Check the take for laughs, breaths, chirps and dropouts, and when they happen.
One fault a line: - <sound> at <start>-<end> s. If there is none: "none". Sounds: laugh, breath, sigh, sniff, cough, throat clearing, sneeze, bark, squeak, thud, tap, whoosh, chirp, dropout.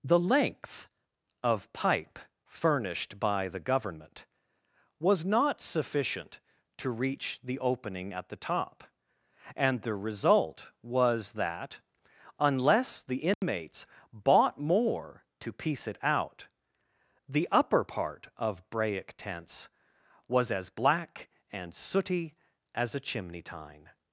- dropout at 13.3-13.4 s